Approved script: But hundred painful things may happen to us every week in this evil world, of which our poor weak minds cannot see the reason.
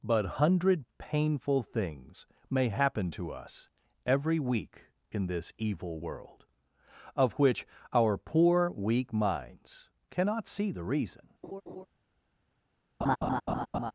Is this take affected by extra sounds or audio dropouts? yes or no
yes